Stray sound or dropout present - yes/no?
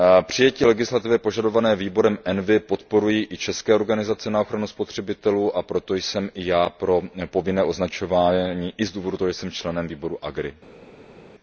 no